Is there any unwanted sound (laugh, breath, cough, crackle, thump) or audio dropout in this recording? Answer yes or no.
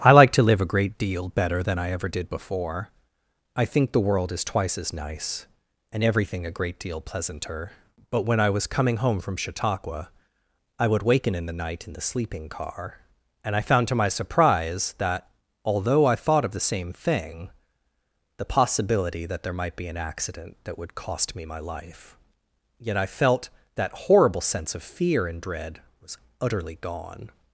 no